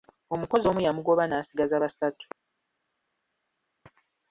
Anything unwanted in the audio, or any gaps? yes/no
no